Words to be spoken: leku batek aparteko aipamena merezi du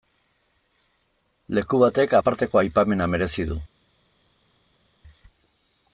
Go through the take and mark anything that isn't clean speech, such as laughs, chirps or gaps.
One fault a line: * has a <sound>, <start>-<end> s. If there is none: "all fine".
all fine